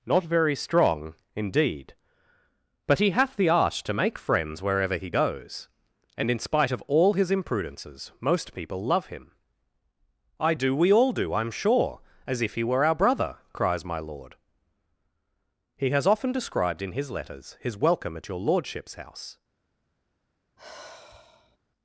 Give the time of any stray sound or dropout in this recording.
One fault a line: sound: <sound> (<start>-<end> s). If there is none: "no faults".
sound: sigh (20.6-21.6 s)